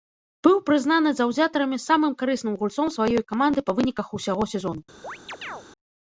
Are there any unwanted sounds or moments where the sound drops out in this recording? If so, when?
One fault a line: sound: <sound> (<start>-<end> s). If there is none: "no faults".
sound: chirp (5.0-5.6 s)